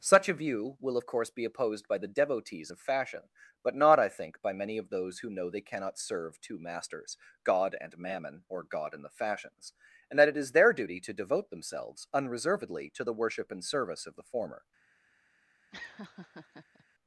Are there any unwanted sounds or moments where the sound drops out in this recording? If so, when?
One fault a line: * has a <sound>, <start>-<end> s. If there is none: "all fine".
* has a laugh, 15.7-16.8 s